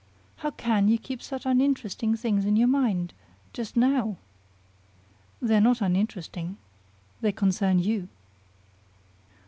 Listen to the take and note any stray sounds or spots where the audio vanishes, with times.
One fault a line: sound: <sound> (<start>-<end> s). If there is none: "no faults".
no faults